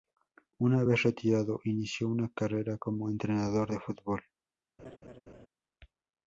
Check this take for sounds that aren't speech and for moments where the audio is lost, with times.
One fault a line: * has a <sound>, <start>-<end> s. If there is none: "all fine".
* has a laugh, 4.8-5.5 s